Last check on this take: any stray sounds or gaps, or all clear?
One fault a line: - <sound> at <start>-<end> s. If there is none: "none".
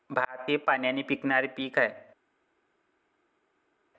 none